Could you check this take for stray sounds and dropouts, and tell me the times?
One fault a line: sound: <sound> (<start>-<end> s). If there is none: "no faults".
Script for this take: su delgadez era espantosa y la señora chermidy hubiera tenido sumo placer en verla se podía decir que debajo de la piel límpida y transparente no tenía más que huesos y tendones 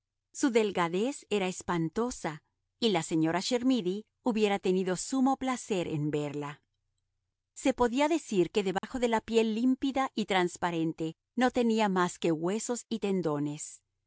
sound: dropout (8.8-8.8 s)